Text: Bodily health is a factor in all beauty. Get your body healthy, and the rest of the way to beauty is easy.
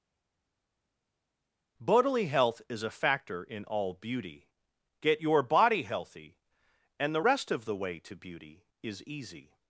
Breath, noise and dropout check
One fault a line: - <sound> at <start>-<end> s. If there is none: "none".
none